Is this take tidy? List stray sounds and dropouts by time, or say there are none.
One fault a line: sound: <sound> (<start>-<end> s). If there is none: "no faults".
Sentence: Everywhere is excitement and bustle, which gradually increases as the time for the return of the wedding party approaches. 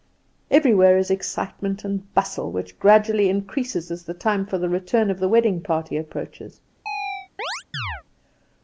sound: chirp (6.9-8.0 s)